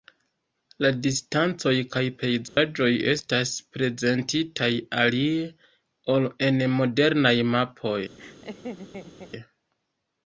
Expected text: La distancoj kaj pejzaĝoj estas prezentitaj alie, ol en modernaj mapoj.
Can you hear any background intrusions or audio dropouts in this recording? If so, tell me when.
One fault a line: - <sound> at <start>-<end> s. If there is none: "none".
- dropout at 2.5-2.6 s
- laugh at 8.2-9.3 s